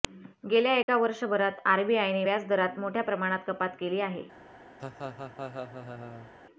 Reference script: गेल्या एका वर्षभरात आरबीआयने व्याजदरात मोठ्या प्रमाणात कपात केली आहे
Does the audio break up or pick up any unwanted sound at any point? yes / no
yes